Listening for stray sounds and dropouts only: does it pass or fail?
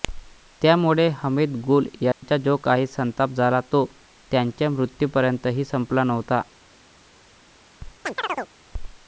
fail